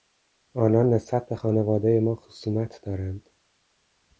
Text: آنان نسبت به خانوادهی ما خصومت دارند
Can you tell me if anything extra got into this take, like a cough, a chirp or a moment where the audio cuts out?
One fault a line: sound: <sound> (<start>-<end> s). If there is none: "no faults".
no faults